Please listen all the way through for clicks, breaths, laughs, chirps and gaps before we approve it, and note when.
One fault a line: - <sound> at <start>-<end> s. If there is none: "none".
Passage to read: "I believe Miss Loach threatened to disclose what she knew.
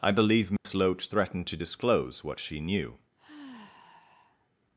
- dropout at 0.6-0.6 s
- sigh at 3.2-4.5 s